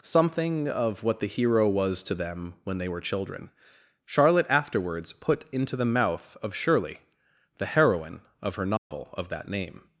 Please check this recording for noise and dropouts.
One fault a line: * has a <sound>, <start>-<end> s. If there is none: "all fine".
* has a dropout, 8.8-8.9 s